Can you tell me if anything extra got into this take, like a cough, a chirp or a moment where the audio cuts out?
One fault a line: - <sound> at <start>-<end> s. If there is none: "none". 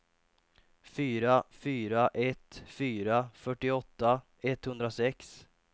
none